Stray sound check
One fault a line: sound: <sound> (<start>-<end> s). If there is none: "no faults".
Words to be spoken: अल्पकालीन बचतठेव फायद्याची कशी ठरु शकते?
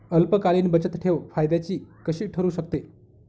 no faults